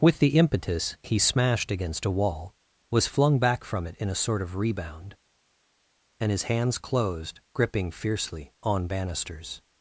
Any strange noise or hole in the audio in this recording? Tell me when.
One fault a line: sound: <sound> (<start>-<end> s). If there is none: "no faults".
no faults